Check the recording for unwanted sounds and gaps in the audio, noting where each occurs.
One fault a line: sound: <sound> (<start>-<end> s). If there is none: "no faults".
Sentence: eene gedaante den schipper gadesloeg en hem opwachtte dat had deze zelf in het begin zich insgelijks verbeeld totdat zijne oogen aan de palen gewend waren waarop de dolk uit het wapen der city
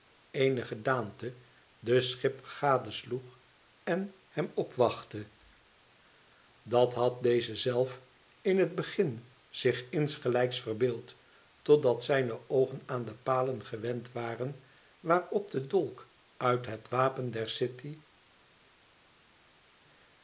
no faults